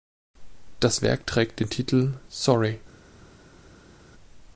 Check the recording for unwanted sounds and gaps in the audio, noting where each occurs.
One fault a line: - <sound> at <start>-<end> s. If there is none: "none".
none